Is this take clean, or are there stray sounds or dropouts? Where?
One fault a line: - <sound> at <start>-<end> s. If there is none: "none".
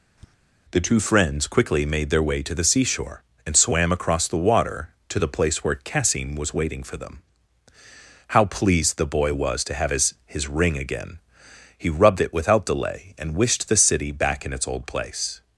- tap at 0.2-0.3 s